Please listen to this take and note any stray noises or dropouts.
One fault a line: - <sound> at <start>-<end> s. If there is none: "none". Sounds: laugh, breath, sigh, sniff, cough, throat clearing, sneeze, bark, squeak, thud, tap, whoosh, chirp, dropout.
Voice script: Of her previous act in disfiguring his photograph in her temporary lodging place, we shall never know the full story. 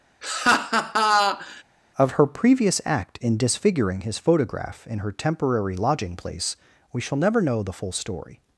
- laugh at 0.2-1.6 s